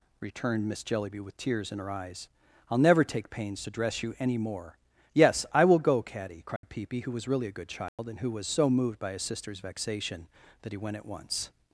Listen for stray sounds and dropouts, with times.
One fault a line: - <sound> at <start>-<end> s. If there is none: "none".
- dropout at 6.6-6.6 s
- dropout at 7.9-8.0 s